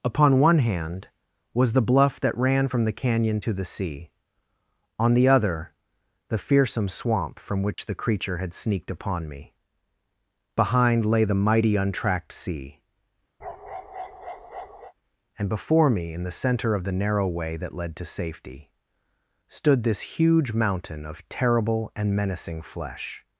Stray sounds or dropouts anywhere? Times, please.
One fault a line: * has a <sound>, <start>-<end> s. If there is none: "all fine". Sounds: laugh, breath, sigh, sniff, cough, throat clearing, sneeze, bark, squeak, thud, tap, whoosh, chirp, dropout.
* has a dropout, 7.7-7.8 s
* has a bark, 13.4-14.9 s